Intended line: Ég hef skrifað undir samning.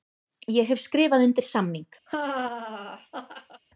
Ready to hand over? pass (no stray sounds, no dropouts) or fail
fail